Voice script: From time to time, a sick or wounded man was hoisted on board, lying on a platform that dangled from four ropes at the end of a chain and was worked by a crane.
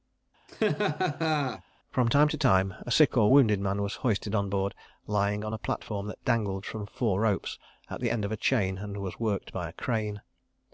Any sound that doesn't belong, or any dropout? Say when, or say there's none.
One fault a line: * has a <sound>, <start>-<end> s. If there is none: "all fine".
* has a laugh, 0.5-1.6 s